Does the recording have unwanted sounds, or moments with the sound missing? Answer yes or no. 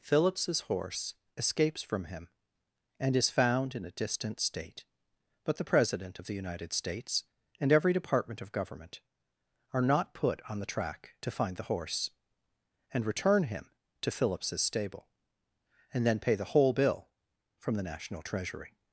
no